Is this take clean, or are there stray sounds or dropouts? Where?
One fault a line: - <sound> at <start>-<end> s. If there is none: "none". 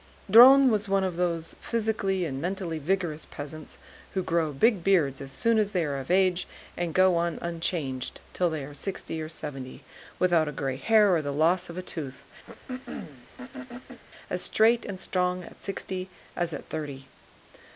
- throat clearing at 12.4-14.0 s